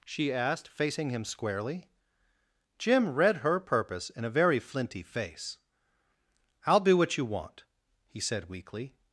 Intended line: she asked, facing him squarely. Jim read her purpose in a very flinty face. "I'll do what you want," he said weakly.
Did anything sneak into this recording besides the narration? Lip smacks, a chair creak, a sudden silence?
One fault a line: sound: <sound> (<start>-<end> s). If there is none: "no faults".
no faults